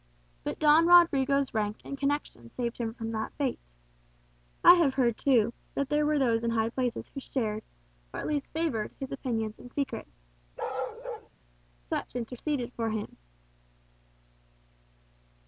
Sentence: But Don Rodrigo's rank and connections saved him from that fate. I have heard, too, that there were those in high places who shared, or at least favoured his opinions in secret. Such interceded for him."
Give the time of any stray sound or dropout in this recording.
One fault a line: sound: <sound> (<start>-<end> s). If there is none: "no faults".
sound: bark (10.6-11.3 s)